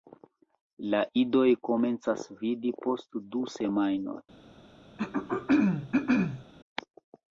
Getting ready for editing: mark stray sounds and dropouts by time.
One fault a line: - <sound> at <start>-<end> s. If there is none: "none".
- throat clearing at 5.0-6.4 s